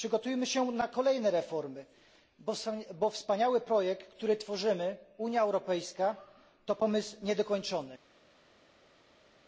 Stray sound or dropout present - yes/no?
no